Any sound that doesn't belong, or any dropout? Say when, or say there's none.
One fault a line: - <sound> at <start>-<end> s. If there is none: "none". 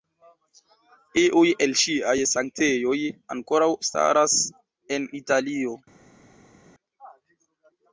none